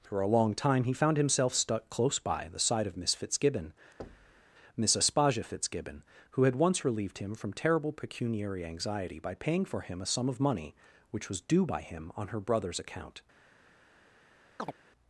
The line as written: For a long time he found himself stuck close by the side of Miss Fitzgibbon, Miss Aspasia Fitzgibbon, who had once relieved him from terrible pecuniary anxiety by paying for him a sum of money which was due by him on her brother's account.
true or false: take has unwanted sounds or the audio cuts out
true